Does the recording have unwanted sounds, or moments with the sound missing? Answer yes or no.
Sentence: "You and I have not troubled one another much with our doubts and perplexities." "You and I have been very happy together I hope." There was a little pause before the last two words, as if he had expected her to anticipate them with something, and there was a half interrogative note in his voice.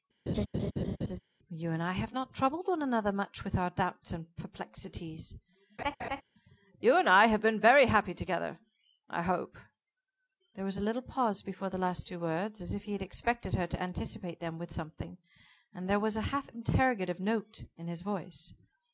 yes